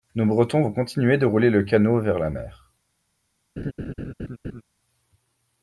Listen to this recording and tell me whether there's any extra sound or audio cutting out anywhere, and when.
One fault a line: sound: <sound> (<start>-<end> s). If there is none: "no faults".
sound: laugh (3.6-4.6 s)